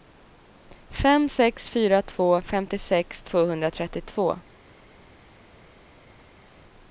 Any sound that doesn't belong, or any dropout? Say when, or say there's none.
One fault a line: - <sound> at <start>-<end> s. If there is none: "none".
none